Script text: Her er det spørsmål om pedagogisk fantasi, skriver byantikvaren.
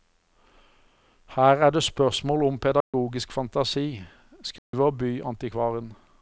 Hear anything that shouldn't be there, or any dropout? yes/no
yes